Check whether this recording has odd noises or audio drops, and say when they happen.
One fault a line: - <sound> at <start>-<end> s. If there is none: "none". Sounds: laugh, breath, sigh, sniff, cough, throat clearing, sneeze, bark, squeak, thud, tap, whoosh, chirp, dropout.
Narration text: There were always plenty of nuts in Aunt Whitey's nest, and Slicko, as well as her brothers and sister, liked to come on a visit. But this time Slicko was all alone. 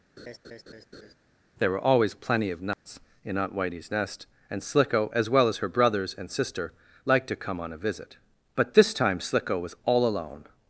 - laugh at 0.2-1.1 s
- dropout at 2.7-2.9 s